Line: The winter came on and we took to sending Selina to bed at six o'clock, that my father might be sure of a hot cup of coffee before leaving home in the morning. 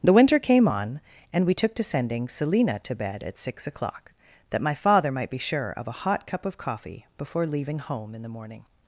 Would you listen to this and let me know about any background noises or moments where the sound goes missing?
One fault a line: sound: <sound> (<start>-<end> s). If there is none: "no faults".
no faults